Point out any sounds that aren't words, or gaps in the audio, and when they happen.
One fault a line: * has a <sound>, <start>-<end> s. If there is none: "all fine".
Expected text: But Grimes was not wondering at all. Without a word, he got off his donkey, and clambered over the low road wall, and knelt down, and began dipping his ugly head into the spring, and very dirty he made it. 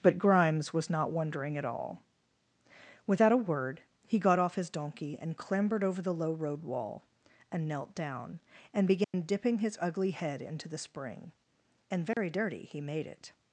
* has a dropout, 9.0-9.1 s
* has a dropout, 12.1-12.2 s